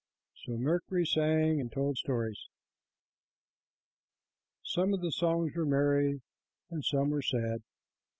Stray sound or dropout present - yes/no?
no